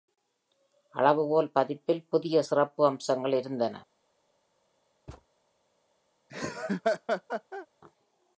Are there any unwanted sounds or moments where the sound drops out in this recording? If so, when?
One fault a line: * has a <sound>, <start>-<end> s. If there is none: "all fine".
* has a thud, 5.1-5.3 s
* has a laugh, 6.3-7.7 s